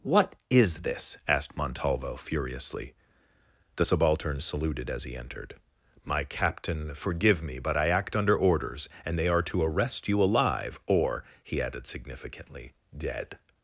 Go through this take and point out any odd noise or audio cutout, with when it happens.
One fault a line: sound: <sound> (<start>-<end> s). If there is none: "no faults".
no faults